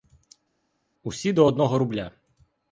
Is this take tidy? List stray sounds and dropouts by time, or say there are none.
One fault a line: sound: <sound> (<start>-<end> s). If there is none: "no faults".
no faults